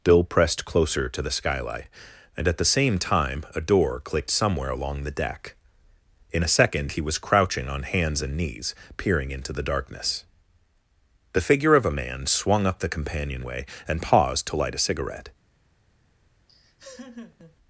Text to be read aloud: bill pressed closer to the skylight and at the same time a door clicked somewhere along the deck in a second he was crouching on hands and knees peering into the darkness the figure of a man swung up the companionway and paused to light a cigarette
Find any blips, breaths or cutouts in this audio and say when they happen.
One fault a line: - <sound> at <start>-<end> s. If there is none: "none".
- laugh at 16.5-17.6 s